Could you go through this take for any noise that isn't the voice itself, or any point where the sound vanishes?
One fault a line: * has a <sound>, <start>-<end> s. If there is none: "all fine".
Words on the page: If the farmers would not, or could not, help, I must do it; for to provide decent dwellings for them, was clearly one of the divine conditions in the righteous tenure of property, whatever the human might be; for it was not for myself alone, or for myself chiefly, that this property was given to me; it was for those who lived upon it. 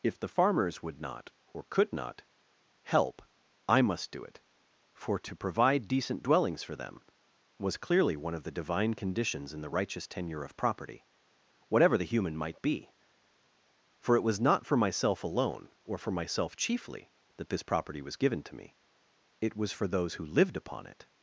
all fine